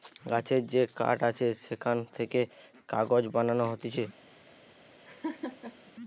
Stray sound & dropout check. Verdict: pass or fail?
fail